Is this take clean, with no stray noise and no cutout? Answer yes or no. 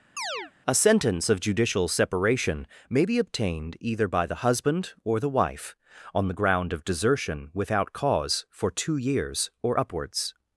no